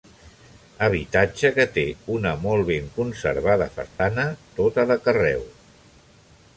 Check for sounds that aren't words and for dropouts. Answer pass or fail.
fail